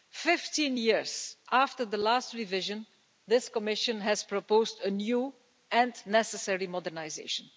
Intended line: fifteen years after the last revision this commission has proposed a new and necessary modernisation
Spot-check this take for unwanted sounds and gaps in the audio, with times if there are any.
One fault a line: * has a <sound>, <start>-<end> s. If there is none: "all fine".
all fine